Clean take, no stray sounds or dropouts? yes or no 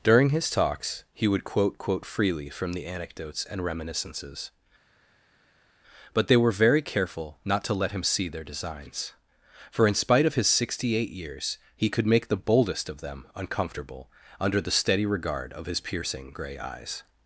yes